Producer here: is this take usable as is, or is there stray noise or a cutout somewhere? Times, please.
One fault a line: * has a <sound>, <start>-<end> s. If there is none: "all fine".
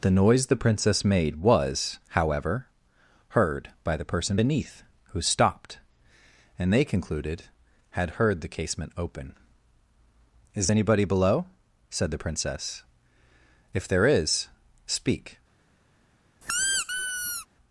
* has a squeak, 16.4-17.5 s